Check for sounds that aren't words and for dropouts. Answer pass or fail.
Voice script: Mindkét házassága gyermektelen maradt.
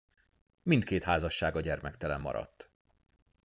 pass